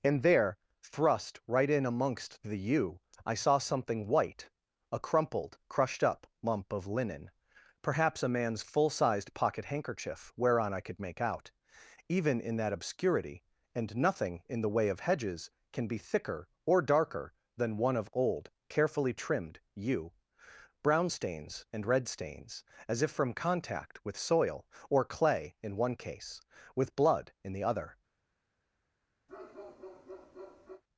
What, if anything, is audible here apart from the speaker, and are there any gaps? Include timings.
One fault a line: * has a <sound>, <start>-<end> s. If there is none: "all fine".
* has a bark, 29.3-30.8 s